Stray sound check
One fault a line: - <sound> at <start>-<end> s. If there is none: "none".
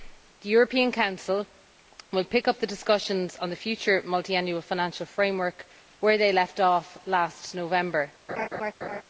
- laugh at 8.3-9.0 s